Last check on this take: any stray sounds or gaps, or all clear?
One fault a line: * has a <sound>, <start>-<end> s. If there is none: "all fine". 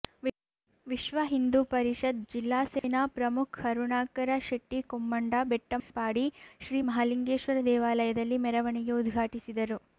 * has a dropout, 2.8-2.8 s
* has a dropout, 5.8-5.9 s